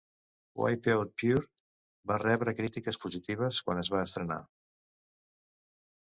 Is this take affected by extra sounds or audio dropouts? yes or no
no